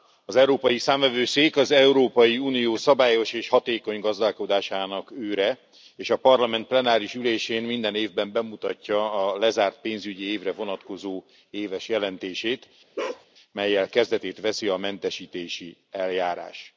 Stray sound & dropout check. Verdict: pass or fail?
fail